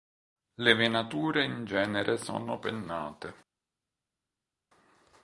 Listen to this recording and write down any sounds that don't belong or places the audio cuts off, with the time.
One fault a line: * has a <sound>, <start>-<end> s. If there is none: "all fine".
all fine